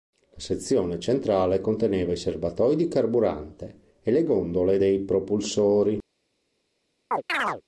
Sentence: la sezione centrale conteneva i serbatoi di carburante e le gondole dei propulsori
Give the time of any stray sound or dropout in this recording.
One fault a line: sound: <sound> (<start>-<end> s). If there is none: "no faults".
sound: chirp (7.1-7.6 s)